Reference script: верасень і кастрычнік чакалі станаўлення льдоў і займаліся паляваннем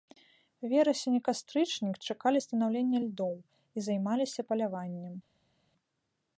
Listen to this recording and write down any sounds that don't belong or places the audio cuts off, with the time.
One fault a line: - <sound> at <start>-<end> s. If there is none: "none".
none